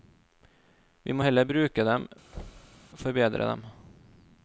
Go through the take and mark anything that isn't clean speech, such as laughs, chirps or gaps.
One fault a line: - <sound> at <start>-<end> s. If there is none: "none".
- thud at 2.3-2.8 s